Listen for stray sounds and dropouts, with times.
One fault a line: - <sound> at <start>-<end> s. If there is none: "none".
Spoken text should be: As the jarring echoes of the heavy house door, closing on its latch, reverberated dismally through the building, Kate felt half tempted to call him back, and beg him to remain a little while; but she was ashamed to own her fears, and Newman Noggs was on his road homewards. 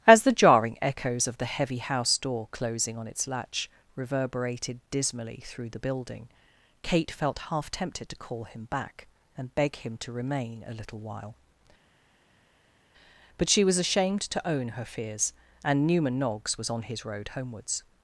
none